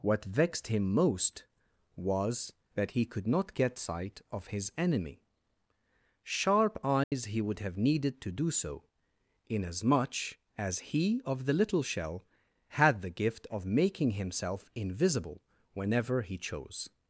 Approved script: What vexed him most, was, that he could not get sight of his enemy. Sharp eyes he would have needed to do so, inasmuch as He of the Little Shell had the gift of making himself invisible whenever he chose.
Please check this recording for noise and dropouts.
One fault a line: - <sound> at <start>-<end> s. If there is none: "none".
- dropout at 7.0-7.1 s